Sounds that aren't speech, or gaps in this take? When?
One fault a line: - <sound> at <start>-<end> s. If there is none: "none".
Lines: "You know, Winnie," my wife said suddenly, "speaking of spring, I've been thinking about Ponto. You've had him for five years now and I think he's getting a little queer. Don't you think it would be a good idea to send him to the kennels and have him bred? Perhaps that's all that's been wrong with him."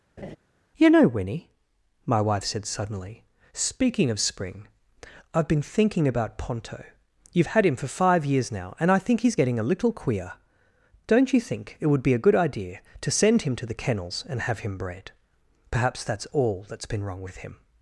- laugh at 0.2-0.4 s